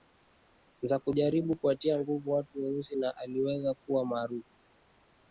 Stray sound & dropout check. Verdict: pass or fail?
pass